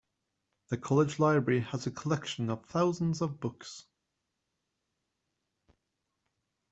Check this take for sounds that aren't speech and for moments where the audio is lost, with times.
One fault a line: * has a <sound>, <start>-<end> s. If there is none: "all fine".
all fine